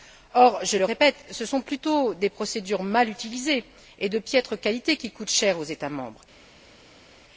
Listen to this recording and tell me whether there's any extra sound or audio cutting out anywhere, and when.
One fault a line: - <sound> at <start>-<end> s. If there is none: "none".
none